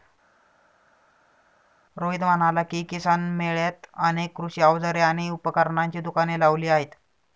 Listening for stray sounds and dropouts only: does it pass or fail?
pass